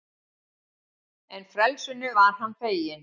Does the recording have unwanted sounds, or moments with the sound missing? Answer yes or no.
no